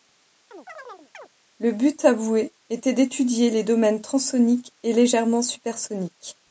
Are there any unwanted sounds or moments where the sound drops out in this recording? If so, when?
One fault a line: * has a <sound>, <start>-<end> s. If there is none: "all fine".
* has a chirp, 0.5-1.3 s